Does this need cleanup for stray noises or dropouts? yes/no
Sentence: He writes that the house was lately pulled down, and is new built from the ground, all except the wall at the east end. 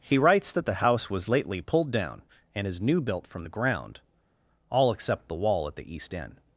no